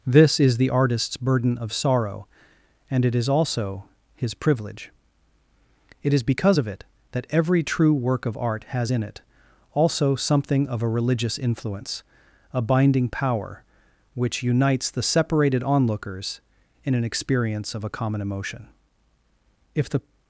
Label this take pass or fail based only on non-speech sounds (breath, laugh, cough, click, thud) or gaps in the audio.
pass